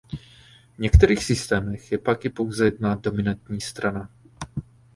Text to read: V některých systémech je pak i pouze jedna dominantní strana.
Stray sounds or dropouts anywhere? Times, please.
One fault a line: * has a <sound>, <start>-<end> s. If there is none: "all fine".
all fine